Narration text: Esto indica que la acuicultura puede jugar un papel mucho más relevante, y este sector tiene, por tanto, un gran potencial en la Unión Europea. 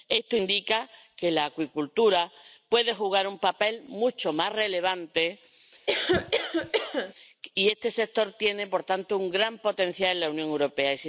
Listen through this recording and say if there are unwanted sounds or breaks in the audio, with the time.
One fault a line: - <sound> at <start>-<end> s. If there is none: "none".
- cough at 5.9-7.1 s